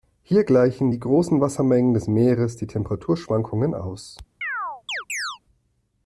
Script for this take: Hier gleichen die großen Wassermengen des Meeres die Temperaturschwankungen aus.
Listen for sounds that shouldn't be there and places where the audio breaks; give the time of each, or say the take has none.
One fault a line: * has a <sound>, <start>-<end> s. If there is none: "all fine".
* has a chirp, 4.4-5.4 s